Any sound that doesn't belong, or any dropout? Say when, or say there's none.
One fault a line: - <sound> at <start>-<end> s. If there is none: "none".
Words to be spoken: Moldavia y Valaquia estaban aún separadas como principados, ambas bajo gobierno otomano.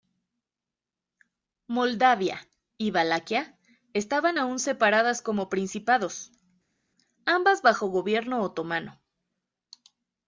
none